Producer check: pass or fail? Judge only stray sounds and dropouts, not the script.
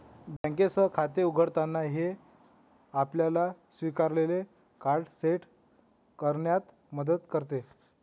fail